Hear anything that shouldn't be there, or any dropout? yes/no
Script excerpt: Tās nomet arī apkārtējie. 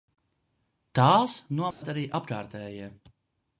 yes